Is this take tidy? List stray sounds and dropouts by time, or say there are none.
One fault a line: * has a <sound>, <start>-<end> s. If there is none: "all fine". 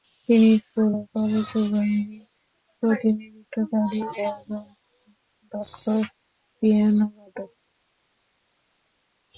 all fine